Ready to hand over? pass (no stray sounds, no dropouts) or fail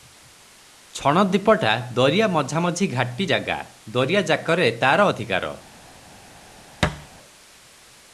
fail